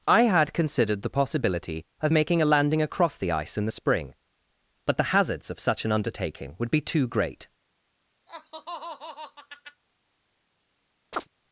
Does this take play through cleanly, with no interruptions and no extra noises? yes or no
no